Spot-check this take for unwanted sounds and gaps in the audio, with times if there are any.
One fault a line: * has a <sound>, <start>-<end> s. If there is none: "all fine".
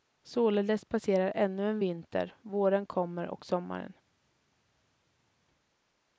all fine